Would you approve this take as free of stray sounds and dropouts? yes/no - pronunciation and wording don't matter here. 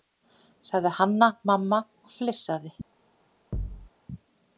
no